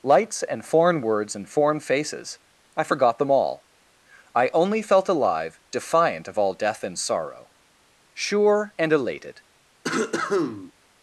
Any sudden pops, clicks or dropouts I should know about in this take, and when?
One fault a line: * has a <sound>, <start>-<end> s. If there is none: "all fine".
* has a cough, 9.8-10.7 s